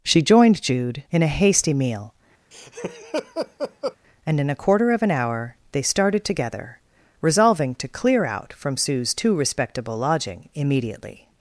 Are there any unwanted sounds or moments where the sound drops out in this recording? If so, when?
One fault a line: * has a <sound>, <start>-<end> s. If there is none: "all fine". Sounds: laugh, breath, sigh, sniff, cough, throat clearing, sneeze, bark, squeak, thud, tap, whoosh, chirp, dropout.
* has a laugh, 2.5-4.0 s